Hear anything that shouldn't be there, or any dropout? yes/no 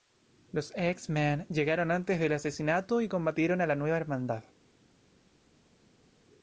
no